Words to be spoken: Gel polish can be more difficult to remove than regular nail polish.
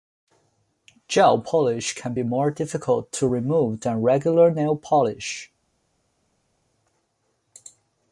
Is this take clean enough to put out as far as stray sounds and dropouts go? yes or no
yes